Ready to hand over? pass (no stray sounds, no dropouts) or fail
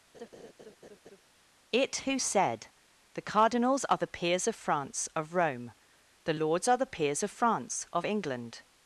fail